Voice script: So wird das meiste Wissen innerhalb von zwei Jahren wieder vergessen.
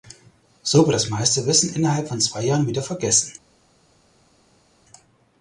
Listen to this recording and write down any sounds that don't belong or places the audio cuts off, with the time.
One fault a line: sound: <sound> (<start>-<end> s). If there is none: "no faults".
no faults